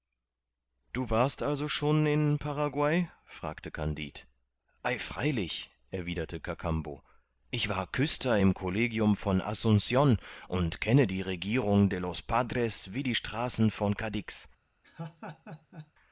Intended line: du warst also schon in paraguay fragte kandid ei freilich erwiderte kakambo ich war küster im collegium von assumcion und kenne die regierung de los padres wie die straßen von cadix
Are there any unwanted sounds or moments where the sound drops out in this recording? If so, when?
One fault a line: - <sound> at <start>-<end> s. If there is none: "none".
- laugh at 14.8-15.9 s